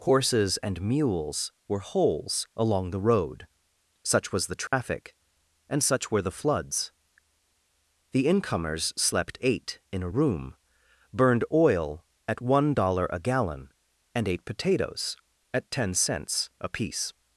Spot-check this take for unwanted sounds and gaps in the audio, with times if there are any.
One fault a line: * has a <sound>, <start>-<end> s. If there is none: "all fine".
* has a dropout, 4.7-4.7 s